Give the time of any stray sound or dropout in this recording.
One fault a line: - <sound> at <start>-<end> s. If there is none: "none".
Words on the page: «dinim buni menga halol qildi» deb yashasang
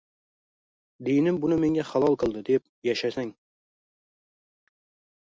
none